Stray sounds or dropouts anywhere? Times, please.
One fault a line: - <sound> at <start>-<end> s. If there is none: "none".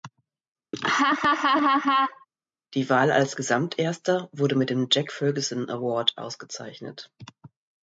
- laugh at 0.7-2.3 s